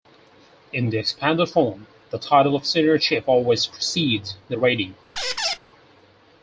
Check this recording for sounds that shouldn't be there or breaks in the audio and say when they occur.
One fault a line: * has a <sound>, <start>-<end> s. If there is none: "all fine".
* has a squeak, 5.2-5.6 s